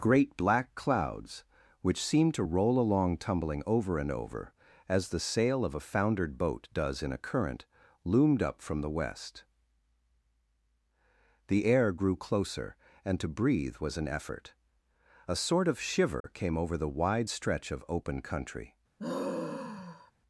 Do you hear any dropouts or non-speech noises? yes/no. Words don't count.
yes